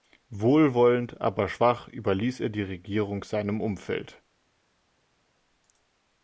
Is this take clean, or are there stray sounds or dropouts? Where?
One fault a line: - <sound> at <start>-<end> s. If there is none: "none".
none